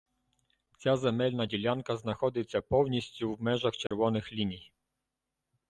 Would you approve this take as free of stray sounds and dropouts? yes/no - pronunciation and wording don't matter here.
no